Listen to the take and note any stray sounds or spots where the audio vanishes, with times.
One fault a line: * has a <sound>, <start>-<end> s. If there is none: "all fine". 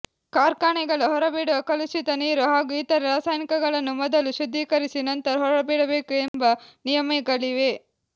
* has a dropout, 6.3-6.3 s